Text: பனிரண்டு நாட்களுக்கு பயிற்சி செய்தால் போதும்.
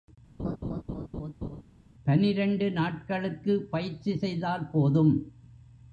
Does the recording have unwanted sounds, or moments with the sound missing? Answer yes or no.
yes